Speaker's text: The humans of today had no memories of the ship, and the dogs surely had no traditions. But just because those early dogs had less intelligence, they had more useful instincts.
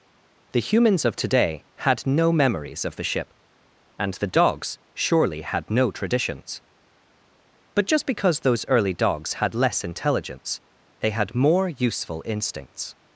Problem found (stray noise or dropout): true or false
false